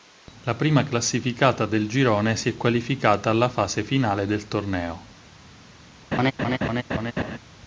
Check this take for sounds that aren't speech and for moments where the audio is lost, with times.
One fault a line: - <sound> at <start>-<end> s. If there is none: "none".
- laugh at 6.1-7.4 s